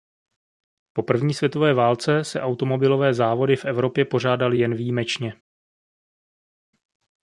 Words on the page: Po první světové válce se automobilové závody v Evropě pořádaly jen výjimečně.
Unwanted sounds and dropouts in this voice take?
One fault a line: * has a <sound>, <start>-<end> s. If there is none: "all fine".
all fine